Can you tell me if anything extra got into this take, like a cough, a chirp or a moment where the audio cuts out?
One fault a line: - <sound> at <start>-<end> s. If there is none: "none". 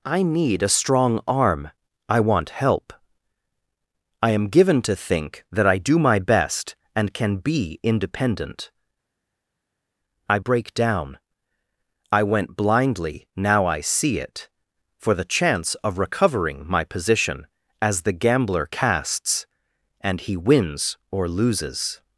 none